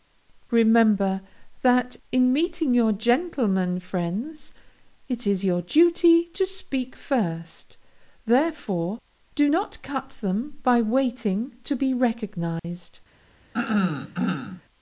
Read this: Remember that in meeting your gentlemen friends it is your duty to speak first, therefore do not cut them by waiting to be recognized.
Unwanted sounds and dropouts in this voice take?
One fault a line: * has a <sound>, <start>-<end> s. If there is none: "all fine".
* has a dropout, 12.6-12.6 s
* has a throat clearing, 13.5-14.6 s